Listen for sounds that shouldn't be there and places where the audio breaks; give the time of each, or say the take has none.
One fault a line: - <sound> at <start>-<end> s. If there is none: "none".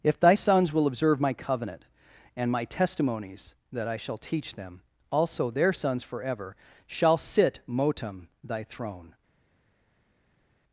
none